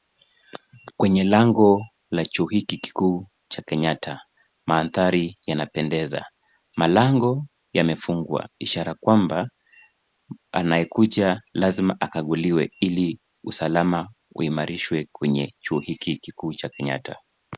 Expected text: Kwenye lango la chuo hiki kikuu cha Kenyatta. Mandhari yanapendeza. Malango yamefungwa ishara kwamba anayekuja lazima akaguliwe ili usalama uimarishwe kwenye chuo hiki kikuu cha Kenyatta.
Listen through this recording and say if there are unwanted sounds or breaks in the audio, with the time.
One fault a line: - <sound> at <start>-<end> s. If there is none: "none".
none